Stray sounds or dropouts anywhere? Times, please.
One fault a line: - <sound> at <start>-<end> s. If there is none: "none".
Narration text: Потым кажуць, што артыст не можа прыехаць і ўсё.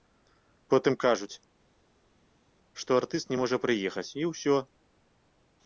none